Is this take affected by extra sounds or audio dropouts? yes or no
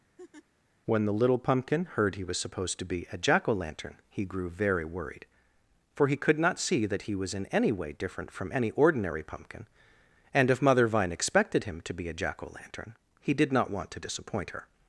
yes